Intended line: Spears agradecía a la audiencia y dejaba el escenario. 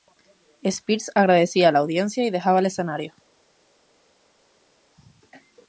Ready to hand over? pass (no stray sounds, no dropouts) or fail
pass